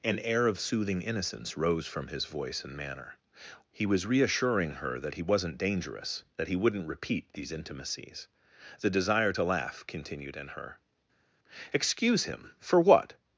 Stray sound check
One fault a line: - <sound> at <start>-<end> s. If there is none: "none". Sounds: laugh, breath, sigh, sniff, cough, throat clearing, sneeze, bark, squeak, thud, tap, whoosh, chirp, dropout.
none